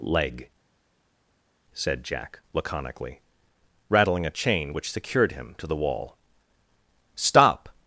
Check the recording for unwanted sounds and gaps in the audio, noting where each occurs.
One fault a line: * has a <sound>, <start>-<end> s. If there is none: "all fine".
all fine